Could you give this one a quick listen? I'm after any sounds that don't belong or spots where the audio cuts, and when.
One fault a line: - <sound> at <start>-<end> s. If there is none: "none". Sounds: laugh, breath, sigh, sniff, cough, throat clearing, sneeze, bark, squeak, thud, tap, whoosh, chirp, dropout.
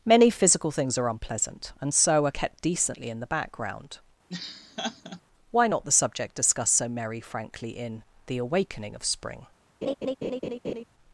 - laugh at 4.3-5.2 s
- laugh at 9.8-10.8 s